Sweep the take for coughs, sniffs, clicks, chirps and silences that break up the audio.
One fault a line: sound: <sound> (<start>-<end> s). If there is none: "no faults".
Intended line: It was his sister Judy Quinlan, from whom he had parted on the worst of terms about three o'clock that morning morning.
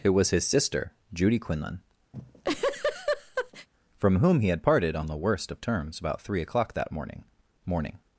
sound: laugh (2.1-3.7 s)